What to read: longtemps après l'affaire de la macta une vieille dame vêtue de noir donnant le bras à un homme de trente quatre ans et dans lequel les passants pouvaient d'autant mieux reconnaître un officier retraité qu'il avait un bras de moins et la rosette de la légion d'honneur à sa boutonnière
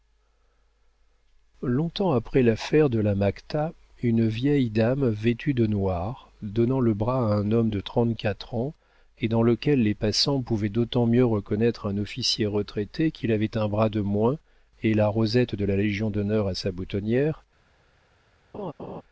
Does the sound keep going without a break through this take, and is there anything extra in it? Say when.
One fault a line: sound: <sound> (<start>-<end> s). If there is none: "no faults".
sound: laugh (18.5-19.0 s)